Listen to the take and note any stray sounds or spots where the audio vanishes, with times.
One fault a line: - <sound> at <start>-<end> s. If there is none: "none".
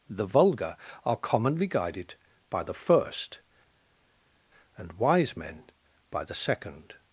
none